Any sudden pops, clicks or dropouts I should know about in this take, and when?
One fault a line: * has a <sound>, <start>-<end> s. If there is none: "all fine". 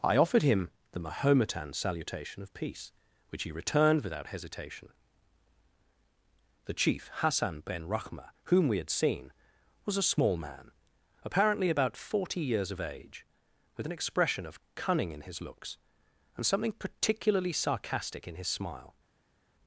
all fine